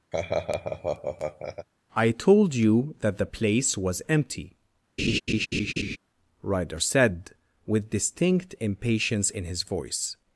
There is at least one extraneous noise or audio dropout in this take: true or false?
true